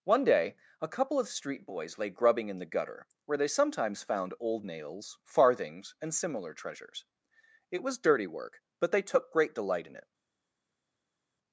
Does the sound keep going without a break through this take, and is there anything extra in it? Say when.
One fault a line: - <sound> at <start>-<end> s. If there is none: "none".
none